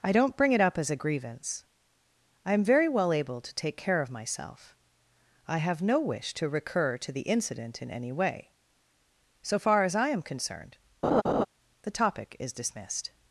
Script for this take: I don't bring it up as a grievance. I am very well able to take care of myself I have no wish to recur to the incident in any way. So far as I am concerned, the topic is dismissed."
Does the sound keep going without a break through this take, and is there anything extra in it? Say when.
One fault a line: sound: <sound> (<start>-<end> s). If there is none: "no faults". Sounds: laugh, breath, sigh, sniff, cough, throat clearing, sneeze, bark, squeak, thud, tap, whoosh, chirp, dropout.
sound: laugh (11.0-11.5 s)